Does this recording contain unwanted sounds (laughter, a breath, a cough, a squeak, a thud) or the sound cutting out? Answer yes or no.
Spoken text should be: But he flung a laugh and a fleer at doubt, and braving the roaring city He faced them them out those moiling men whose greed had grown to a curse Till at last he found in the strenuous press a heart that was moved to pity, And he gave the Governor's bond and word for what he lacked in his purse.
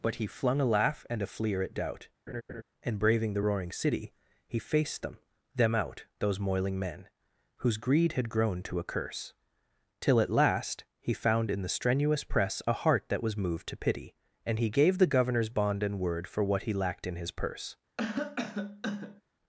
yes